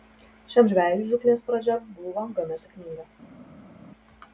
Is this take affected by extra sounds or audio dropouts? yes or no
no